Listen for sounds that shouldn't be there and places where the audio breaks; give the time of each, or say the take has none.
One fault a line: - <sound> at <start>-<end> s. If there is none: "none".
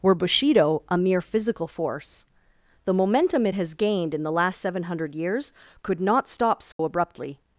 - dropout at 6.7-6.8 s